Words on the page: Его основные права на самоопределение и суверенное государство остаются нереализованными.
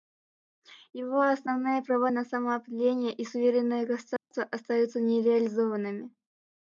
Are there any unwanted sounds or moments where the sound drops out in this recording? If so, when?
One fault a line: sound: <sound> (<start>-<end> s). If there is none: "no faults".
sound: dropout (4.2-4.3 s)